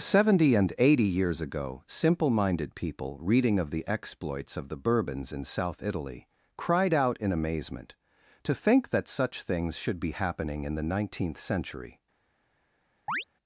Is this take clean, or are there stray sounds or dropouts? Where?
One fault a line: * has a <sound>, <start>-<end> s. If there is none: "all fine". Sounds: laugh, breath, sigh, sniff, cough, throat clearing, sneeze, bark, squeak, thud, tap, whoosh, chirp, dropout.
* has a chirp, 13.1-13.2 s